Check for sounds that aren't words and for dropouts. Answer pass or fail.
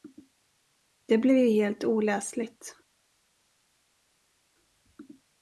pass